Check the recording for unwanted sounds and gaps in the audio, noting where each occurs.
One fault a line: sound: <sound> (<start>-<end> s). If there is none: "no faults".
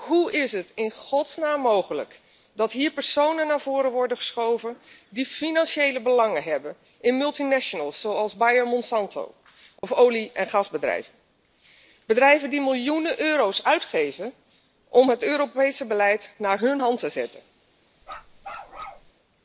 sound: dropout (9.8-9.8 s)
sound: bark (18.0-19.1 s)